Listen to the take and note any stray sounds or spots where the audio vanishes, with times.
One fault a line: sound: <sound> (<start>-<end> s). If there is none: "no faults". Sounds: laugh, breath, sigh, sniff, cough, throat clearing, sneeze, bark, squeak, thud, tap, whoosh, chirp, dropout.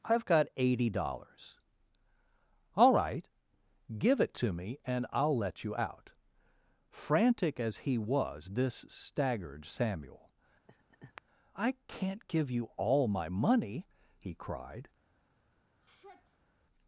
sound: laugh (10.7-11.2 s)
sound: sigh (15.8-16.6 s)